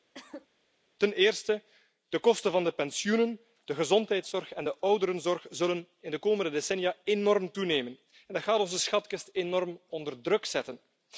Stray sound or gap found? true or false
true